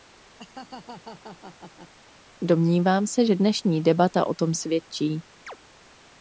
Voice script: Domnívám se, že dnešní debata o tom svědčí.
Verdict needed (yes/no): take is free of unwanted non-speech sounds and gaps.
no